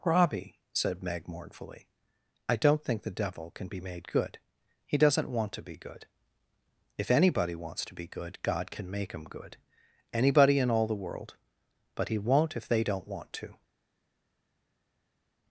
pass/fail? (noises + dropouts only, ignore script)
pass